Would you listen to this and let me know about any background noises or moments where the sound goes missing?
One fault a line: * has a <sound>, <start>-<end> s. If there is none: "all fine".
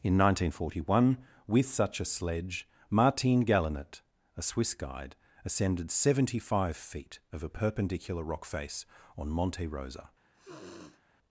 * has a sniff, 10.3-11.0 s